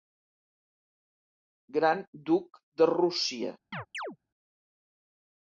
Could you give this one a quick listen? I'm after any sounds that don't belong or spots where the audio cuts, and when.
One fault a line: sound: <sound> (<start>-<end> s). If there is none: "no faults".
sound: chirp (3.7-4.2 s)